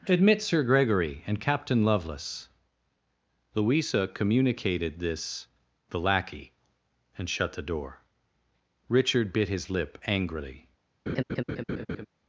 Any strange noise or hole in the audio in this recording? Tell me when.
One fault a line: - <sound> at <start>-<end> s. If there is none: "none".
- laugh at 11.1-12.1 s